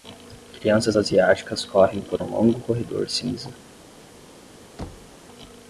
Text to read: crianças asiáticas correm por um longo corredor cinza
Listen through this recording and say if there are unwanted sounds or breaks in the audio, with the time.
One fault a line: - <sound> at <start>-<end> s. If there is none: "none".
- thud at 4.8-5.2 s